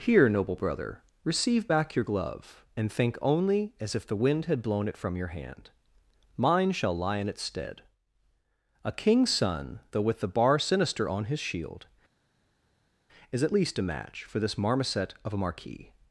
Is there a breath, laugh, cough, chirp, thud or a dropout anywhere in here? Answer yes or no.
no